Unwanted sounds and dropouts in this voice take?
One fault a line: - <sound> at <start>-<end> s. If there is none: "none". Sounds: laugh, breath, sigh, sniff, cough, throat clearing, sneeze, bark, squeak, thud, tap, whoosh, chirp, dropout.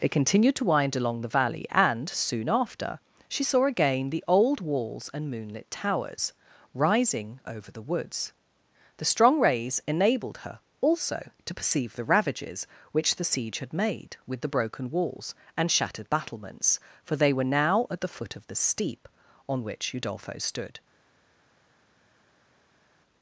none